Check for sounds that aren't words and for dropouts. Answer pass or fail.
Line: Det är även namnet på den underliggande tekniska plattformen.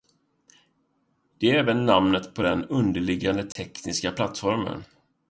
fail